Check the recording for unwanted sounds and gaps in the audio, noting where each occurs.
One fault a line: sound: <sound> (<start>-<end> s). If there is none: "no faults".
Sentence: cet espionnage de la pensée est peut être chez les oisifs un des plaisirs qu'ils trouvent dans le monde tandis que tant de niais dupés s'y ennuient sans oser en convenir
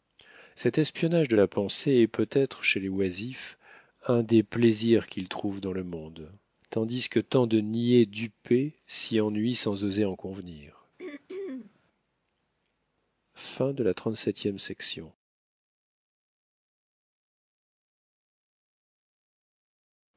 sound: throat clearing (11.0-11.8 s)